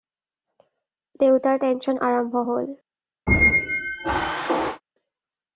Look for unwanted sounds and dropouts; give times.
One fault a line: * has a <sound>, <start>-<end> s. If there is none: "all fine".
* has a squeak, 3.3-4.8 s